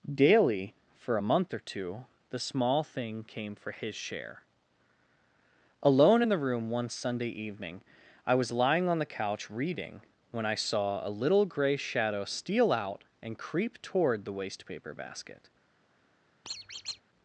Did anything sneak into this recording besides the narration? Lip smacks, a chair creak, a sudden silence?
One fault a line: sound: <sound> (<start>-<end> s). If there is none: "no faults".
sound: squeak (16.4-17.0 s)